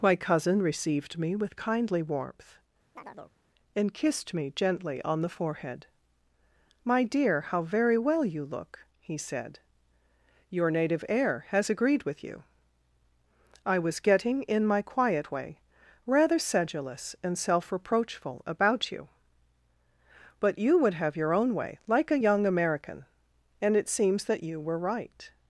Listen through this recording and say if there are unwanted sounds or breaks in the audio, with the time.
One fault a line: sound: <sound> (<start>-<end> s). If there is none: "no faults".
sound: chirp (3.0-3.4 s)